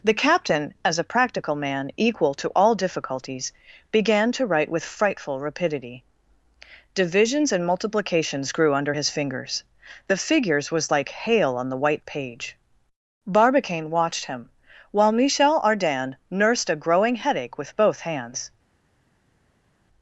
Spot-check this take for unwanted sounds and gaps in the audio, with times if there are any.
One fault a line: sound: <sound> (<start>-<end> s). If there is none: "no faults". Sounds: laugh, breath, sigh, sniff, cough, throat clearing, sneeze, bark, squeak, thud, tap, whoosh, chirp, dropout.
no faults